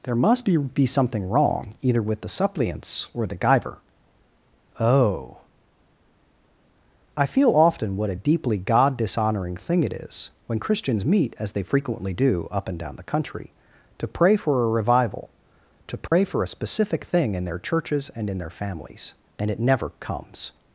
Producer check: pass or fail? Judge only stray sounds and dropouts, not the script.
fail